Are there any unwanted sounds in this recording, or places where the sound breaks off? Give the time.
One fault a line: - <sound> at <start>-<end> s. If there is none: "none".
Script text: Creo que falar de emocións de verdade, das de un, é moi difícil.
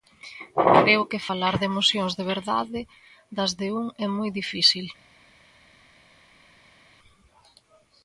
none